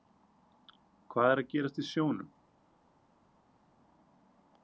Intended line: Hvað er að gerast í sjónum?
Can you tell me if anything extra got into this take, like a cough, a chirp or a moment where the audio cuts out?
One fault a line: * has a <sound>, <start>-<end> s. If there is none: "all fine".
all fine